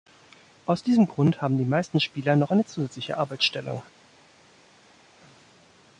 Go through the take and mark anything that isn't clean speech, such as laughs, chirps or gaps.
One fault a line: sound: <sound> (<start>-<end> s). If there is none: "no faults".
no faults